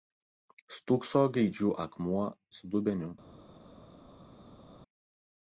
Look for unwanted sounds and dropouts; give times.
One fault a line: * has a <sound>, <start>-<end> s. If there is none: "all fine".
all fine